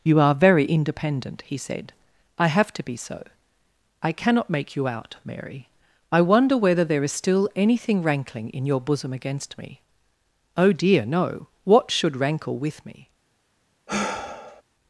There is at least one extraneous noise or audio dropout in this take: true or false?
true